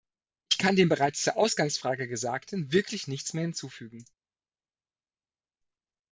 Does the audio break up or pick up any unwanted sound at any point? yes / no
no